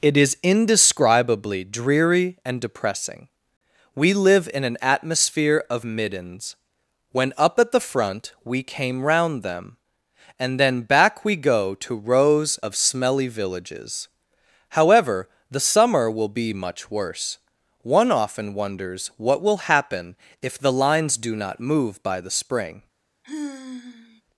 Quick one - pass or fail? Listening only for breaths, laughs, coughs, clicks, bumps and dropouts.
fail